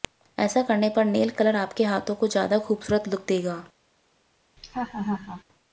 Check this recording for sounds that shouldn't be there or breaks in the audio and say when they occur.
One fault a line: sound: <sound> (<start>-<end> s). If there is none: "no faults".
sound: laugh (4.6-5.4 s)